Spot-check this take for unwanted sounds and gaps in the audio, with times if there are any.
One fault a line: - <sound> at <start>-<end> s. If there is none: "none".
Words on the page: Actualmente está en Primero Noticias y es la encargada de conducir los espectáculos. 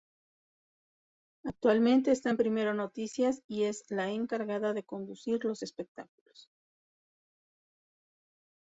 none